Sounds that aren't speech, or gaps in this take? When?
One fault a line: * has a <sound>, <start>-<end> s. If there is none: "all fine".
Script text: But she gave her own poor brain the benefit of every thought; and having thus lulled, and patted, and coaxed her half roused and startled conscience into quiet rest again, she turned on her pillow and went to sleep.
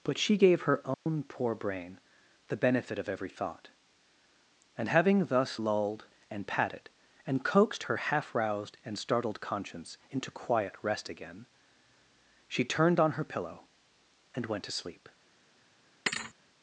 * has a dropout, 0.9-1.1 s
* has a thud, 16.1-16.3 s